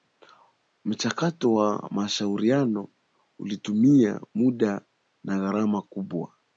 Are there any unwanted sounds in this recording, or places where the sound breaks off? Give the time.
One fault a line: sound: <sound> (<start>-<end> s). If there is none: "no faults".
no faults